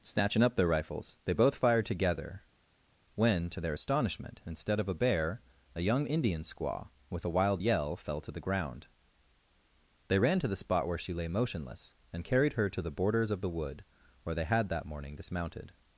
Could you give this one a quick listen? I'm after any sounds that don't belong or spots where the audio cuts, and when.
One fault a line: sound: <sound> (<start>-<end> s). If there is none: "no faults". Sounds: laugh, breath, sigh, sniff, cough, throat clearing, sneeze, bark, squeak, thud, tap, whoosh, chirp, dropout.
no faults